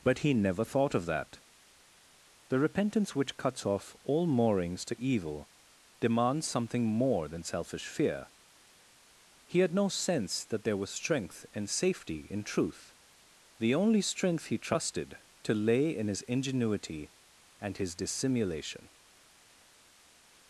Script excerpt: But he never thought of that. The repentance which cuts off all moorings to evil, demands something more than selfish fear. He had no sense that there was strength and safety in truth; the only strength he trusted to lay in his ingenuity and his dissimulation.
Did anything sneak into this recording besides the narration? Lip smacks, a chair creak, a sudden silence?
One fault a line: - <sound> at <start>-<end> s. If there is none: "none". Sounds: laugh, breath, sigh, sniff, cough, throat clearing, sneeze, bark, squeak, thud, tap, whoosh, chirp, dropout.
none